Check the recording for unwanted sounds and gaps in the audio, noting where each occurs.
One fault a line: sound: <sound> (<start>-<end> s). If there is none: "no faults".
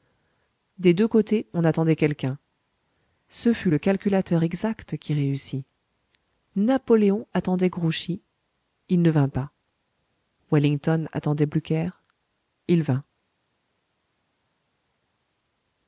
no faults